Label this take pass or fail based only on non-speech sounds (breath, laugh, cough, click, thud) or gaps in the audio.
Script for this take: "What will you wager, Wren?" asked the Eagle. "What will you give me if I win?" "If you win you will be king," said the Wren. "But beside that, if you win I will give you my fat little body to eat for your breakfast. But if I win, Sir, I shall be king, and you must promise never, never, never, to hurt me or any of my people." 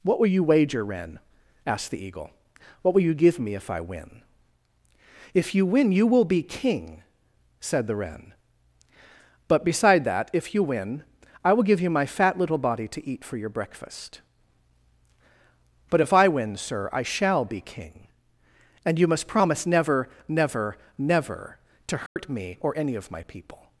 fail